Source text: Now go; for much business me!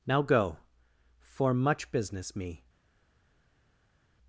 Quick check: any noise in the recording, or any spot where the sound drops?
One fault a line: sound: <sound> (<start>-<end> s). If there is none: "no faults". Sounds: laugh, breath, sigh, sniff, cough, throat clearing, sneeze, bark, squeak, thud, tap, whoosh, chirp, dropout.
no faults